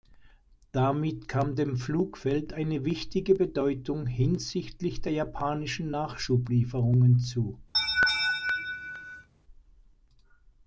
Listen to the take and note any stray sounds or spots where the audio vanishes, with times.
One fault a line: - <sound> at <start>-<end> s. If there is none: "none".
- laugh at 7.7-9.3 s